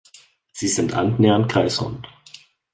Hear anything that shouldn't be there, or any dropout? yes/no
no